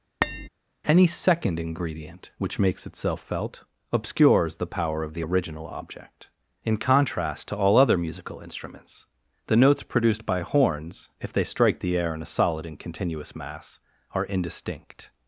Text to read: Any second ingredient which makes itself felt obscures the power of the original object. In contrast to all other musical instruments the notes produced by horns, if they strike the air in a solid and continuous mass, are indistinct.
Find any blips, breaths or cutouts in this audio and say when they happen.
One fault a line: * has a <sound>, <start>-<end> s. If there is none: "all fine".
* has a tap, 0.2-0.5 s